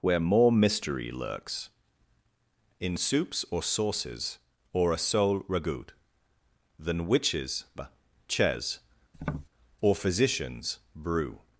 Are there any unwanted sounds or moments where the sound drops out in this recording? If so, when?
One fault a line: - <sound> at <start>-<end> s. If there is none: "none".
- tap at 9.1-9.5 s